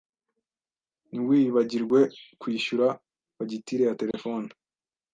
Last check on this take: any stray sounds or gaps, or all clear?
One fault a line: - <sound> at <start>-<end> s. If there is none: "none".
- dropout at 4.1-4.1 s